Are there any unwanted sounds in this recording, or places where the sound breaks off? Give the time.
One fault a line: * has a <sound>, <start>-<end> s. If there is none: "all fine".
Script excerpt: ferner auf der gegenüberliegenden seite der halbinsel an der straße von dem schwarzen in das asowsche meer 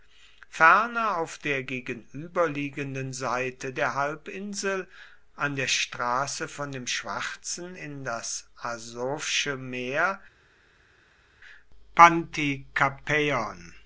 all fine